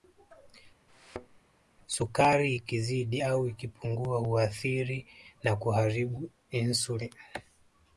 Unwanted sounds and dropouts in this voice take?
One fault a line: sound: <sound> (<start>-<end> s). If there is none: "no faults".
sound: thud (0.9-1.4 s)